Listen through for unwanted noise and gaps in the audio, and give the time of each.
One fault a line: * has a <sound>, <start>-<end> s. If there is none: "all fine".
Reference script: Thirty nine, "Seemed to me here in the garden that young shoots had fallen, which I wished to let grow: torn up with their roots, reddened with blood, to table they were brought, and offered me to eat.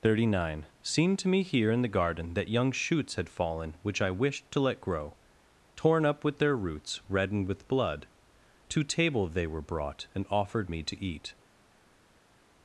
all fine